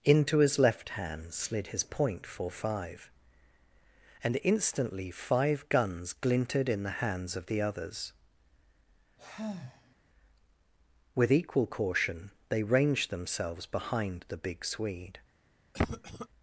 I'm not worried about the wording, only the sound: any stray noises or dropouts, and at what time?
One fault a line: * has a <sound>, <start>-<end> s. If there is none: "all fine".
* has a sigh, 9.2-10.0 s
* has a cough, 15.7-16.3 s